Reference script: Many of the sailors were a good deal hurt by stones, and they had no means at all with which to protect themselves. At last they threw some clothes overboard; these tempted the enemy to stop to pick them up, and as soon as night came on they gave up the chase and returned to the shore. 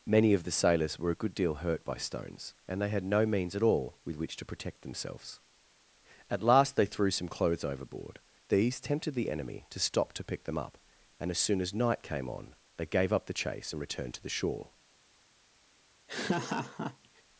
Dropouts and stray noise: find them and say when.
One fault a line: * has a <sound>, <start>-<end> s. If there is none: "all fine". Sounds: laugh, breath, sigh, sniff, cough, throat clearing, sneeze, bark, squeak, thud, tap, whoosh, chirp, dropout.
* has a laugh, 16.1-17.2 s